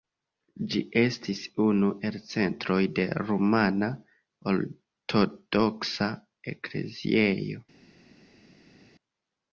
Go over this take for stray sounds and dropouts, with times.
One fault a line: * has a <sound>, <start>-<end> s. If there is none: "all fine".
all fine